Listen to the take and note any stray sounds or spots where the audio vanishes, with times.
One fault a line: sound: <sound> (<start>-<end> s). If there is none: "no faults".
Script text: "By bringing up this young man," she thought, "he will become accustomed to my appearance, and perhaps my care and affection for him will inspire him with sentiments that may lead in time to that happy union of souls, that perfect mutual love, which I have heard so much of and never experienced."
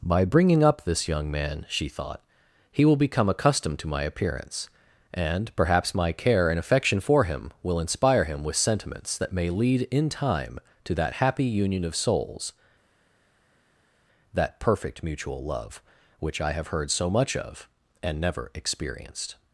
no faults